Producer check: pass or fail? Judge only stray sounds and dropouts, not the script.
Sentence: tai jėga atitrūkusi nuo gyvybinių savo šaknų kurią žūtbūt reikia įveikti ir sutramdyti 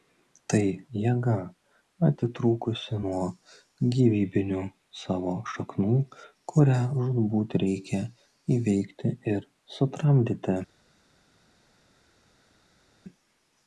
pass